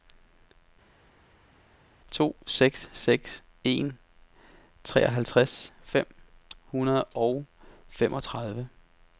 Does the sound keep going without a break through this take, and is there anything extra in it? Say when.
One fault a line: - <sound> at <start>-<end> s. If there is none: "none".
none